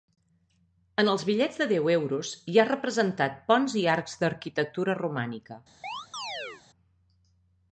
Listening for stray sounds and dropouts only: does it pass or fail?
fail